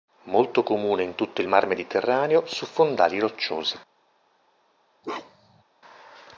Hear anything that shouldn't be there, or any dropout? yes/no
yes